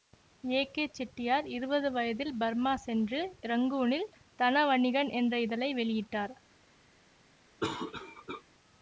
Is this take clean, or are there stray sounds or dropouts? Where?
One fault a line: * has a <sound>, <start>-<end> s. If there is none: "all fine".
* has a cough, 7.6-8.4 s